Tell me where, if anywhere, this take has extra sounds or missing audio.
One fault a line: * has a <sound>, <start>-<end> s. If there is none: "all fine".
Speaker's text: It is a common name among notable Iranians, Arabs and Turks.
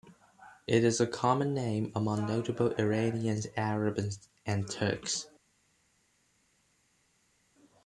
all fine